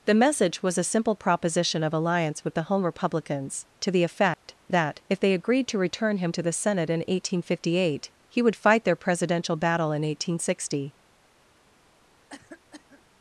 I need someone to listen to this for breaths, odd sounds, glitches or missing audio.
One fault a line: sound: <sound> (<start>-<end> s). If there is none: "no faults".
sound: dropout (4.3-4.5 s)
sound: cough (12.3-13.0 s)